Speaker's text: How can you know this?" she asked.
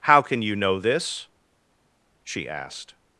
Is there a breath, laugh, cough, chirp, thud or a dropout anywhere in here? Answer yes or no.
no